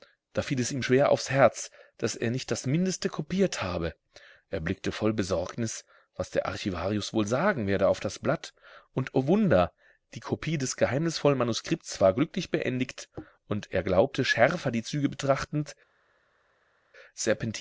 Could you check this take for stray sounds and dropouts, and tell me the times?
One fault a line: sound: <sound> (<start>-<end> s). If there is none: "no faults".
no faults